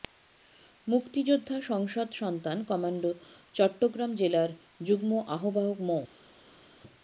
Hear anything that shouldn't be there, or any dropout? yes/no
no